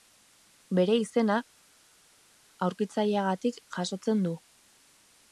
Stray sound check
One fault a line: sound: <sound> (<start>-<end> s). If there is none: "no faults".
no faults